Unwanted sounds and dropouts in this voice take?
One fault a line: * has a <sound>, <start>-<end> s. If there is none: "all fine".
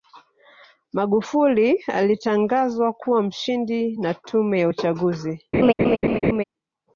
* has a laugh, 5.5-6.4 s